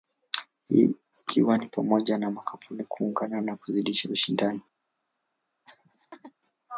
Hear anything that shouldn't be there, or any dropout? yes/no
yes